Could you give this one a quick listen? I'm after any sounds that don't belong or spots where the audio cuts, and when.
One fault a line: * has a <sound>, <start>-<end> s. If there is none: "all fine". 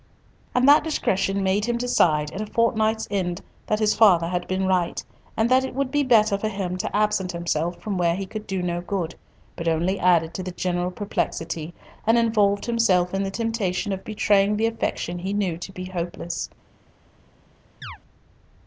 * has a chirp, 17.8-18.0 s